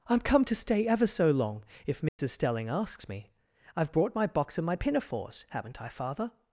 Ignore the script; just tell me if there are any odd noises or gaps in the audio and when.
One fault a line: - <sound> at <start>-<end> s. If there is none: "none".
- dropout at 2.1-2.2 s